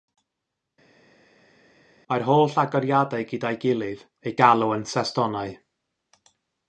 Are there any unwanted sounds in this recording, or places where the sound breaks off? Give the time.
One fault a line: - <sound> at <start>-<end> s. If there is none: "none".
none